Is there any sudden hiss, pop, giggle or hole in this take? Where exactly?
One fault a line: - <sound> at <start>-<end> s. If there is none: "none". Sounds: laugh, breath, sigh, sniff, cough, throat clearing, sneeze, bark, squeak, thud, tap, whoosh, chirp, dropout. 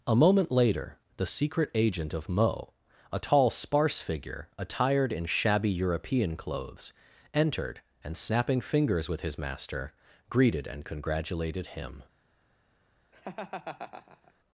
- laugh at 13.1-14.3 s